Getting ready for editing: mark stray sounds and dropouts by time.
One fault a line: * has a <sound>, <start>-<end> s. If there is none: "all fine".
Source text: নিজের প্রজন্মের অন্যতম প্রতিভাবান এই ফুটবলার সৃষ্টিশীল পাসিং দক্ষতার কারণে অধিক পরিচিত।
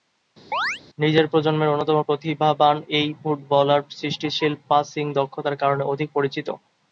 * has a chirp, 0.5-0.8 s